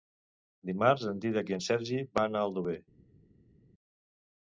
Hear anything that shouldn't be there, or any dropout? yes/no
no